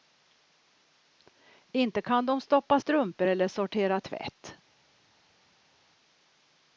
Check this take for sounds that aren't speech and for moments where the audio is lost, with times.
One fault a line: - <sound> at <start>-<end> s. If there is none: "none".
none